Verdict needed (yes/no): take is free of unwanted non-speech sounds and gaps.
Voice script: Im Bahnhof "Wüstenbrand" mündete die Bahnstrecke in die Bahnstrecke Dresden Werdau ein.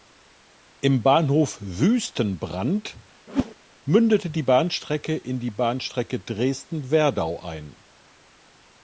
no